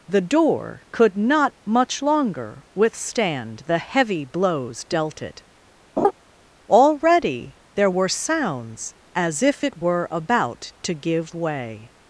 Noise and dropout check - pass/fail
fail